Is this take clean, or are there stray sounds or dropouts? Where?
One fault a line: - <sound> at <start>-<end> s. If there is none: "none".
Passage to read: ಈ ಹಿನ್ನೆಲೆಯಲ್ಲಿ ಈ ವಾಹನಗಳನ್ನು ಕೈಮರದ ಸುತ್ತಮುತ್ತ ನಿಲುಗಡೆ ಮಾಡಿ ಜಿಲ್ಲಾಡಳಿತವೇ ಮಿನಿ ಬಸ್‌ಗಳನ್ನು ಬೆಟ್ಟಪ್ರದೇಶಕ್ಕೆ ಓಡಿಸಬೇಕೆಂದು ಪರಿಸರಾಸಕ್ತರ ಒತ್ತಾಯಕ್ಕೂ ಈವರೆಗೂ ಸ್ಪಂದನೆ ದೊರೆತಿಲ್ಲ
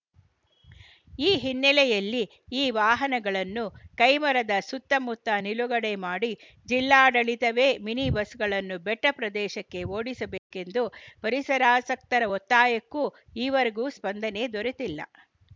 - dropout at 10.4-10.5 s